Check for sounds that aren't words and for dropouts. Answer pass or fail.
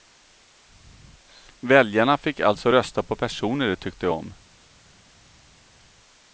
pass